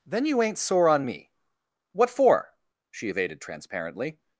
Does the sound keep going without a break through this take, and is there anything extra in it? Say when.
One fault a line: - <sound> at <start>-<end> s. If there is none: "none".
none